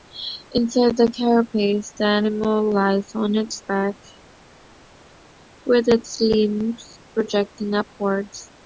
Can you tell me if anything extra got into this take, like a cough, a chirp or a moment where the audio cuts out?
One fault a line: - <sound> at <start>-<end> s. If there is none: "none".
none